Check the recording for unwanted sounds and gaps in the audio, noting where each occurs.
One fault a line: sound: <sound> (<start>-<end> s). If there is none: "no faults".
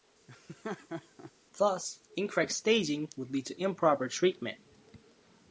sound: laugh (0.3-1.3 s)